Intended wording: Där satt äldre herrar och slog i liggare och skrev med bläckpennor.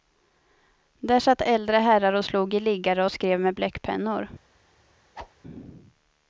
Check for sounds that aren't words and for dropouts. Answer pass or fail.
fail